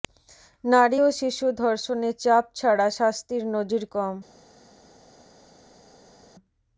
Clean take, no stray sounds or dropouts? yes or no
yes